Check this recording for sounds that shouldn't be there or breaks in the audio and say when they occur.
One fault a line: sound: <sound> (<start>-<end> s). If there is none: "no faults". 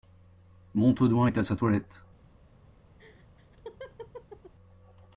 sound: laugh (3.0-4.5 s)